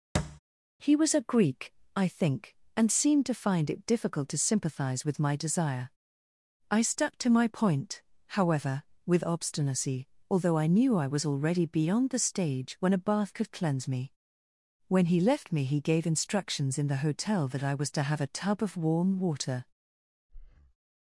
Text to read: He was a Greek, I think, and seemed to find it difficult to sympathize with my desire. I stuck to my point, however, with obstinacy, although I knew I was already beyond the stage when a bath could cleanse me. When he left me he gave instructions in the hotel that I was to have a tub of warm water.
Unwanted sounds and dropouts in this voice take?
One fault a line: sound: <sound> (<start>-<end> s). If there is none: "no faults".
sound: thud (0.1-0.4 s)
sound: breath (20.3-20.8 s)